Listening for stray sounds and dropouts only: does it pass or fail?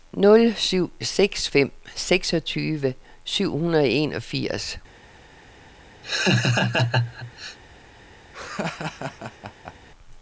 fail